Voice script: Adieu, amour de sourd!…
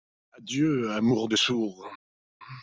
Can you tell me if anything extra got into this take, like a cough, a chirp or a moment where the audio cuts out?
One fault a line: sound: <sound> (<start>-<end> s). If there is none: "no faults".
no faults